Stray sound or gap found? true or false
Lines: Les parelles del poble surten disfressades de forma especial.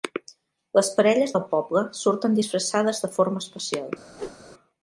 true